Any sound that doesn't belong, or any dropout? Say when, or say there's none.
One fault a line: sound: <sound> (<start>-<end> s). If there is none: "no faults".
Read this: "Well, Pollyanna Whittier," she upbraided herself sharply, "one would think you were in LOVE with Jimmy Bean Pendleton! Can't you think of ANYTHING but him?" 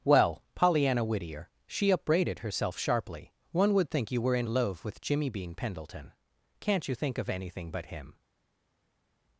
no faults